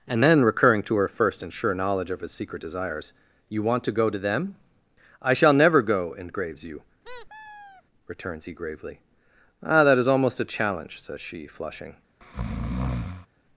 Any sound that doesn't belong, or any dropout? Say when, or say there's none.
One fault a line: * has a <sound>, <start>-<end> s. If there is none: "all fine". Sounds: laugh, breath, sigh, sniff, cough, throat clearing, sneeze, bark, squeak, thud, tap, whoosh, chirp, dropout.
* has a squeak, 7.0-7.8 s
* has a breath, 12.2-13.3 s